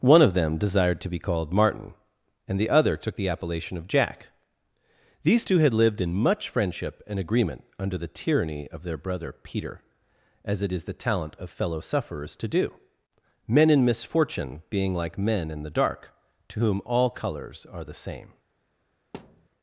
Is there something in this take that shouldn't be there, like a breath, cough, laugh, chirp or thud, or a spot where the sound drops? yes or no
yes